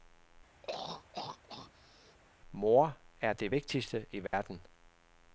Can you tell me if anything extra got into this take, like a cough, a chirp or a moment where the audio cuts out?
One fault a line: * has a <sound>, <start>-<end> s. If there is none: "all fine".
* has a throat clearing, 0.6-2.2 s
* has a dropout, 4.3-4.3 s